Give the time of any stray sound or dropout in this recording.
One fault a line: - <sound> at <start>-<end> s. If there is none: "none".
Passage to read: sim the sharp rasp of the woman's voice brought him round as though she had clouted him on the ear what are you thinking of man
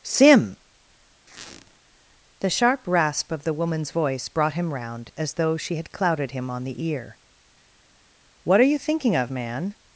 - squeak at 1.3-1.8 s